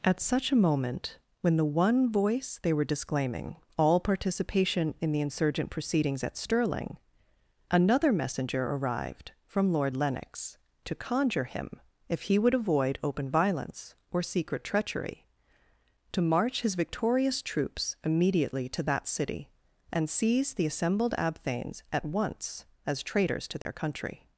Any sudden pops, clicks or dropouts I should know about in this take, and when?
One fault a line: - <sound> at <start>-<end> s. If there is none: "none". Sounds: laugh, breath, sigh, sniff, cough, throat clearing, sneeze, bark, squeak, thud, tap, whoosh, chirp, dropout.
- dropout at 23.6-23.7 s